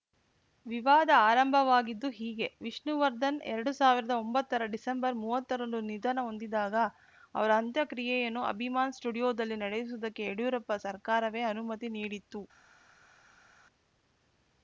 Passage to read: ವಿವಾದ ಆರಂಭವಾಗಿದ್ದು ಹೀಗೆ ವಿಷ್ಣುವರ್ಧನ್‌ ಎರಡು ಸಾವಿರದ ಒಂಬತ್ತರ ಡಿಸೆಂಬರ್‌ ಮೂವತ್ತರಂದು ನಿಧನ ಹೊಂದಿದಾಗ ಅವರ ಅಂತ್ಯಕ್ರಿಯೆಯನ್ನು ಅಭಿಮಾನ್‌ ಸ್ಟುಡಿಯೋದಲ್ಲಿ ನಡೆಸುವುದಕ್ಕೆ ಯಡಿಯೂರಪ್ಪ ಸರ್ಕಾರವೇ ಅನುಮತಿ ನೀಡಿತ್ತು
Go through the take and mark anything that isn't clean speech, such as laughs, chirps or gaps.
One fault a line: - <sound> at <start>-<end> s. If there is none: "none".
none